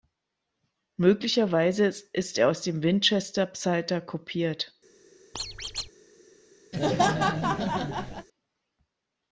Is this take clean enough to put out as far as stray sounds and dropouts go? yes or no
no